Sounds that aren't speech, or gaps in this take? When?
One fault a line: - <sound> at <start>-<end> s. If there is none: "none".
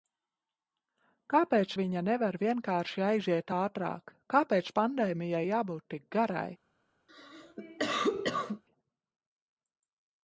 - cough at 7.1-8.6 s